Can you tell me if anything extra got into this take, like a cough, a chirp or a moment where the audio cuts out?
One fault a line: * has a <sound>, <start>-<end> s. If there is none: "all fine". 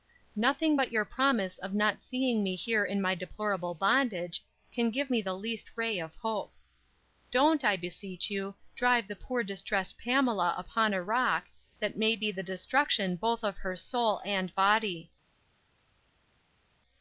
all fine